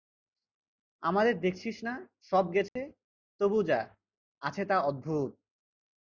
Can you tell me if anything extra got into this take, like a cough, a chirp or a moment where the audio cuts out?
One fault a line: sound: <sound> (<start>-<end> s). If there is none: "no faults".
sound: dropout (2.7-2.8 s)